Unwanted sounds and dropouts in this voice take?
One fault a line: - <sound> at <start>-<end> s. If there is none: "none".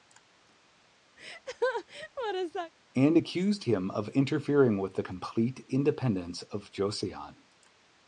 - laugh at 1.2-2.7 s